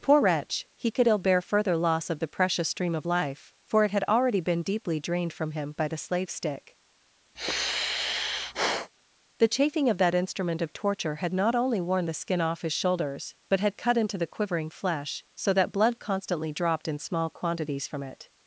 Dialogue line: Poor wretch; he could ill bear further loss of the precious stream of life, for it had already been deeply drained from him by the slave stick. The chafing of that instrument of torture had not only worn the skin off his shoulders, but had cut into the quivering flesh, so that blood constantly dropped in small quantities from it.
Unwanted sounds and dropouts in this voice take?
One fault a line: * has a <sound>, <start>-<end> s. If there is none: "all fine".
* has a sigh, 7.3-8.9 s